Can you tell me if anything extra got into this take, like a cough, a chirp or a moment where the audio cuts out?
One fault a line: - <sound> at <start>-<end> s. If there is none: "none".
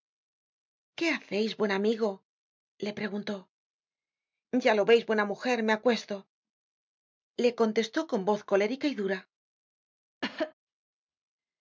- cough at 10.2-10.5 s